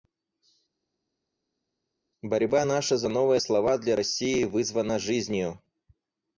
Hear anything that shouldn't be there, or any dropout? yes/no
no